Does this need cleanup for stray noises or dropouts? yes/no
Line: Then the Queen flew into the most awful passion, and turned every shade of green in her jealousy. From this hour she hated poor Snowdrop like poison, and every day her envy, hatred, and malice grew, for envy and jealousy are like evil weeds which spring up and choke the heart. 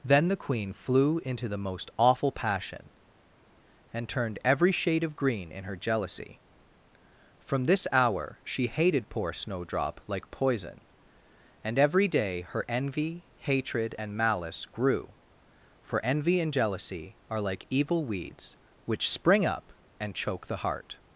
no